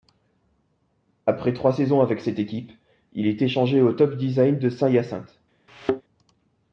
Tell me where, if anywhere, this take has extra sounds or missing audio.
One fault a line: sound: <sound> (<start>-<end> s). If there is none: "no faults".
sound: thud (5.7-6.0 s)